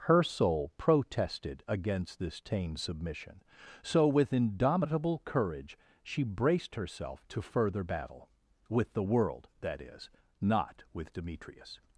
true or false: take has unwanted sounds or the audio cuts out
false